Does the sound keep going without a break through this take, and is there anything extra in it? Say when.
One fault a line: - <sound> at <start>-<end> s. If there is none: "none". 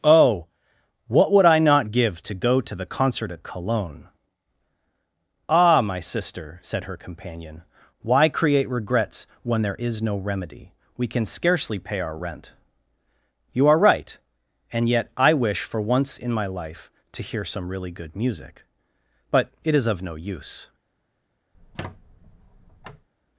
- squeak at 21.5-23.1 s